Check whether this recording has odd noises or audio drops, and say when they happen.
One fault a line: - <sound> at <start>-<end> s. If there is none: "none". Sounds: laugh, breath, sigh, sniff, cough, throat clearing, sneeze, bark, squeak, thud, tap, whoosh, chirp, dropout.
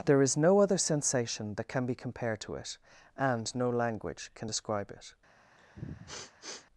- sniff at 5.6-6.7 s